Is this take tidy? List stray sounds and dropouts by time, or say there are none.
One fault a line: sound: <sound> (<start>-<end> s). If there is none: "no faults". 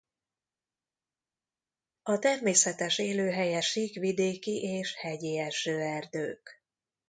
no faults